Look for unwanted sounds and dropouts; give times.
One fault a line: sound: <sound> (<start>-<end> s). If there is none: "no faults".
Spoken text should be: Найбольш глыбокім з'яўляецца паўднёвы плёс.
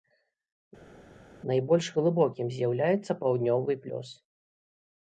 no faults